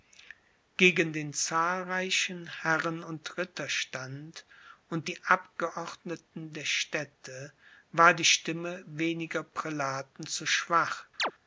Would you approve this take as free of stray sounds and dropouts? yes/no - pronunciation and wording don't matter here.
no